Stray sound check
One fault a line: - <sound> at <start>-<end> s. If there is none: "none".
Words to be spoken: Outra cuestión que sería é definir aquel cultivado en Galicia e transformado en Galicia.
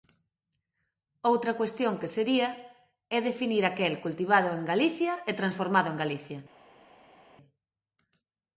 none